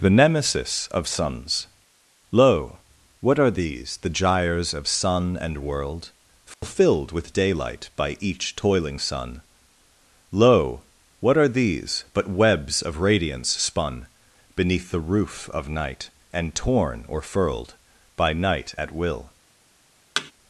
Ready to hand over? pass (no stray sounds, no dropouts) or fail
fail